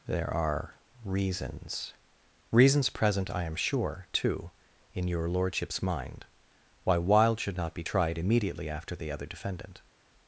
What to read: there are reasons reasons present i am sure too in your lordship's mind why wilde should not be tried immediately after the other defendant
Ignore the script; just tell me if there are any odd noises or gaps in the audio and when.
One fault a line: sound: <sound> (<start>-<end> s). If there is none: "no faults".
no faults